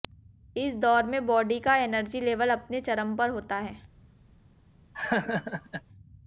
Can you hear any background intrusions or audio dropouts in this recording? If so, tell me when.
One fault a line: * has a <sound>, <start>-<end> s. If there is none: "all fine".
* has a laugh, 4.9-5.8 s